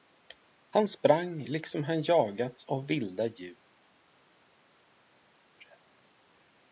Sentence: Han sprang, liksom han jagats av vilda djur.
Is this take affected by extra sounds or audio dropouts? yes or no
no